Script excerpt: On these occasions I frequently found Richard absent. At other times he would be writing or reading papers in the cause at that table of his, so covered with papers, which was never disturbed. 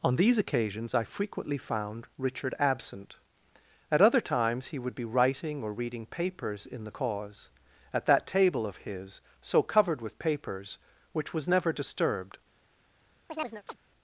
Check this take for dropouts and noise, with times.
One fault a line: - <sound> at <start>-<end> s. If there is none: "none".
- chirp at 13.3-13.8 s